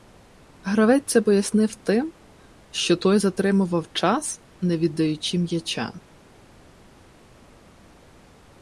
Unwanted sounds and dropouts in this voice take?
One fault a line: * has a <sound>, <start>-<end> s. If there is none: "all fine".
all fine